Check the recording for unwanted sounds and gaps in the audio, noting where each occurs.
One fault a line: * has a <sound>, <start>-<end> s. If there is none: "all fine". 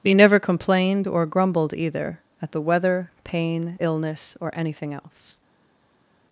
all fine